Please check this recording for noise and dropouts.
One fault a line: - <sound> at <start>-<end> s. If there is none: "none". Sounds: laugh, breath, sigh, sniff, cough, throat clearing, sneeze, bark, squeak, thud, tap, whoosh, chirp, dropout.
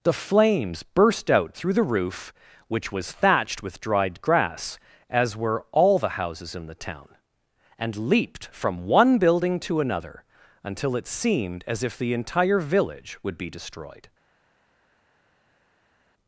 none